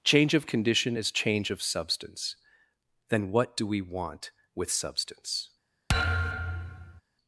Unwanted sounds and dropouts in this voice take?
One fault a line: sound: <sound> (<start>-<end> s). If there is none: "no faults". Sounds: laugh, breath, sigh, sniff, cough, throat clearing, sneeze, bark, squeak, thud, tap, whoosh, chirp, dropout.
sound: thud (5.9-7.0 s)